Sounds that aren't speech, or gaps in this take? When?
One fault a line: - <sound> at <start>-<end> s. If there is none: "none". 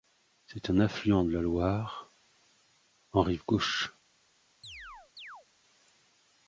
- chirp at 4.6-5.5 s